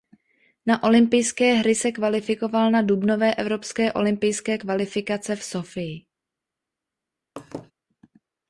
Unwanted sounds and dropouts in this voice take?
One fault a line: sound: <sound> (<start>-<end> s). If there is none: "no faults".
sound: laugh (7.4-7.7 s)